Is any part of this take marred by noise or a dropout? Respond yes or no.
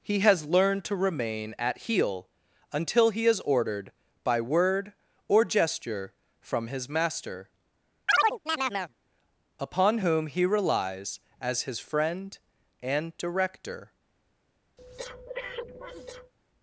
yes